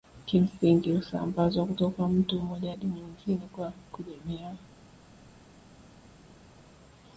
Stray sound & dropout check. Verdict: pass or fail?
pass